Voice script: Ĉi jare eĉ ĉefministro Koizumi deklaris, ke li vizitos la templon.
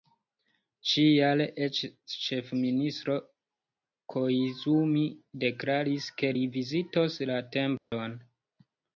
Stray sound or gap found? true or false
true